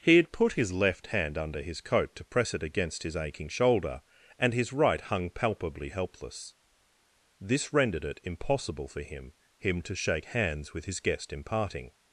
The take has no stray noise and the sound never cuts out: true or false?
true